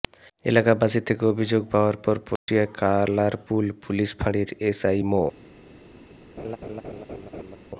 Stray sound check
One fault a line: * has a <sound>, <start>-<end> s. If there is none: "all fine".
* has a dropout, 2.4-2.5 s
* has a laugh, 6.4-7.6 s